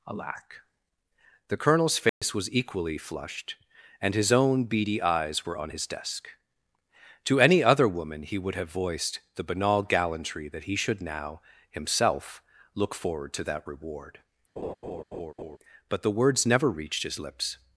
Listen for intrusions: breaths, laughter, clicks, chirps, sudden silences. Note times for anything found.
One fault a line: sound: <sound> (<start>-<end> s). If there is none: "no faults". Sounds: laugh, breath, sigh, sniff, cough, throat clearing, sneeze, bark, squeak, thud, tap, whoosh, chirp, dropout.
sound: dropout (2.1-2.2 s)
sound: laugh (14.6-15.6 s)